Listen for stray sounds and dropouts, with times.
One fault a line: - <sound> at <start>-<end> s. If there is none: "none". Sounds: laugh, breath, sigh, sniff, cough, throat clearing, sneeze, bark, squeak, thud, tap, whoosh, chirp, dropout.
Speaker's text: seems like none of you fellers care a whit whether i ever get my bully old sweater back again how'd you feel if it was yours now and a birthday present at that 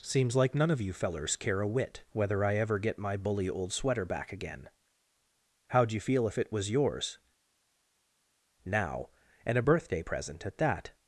none